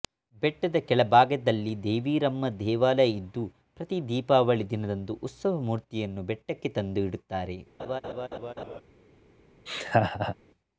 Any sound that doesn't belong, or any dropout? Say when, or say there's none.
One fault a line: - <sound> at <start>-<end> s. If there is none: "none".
- laugh at 7.8-8.8 s
- laugh at 9.7-10.4 s